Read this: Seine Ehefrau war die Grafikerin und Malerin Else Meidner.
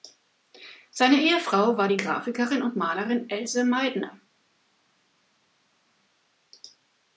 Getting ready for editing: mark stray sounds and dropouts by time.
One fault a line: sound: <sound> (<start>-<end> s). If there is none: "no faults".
no faults